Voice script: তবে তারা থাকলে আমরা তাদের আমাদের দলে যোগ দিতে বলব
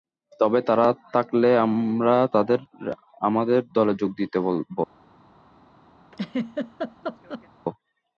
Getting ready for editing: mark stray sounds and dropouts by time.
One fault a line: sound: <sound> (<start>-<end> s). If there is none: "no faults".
sound: laugh (6.1-7.5 s)